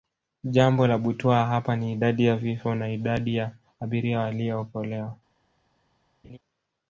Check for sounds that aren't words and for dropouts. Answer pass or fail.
fail